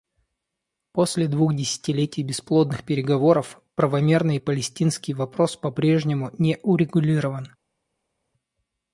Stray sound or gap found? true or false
false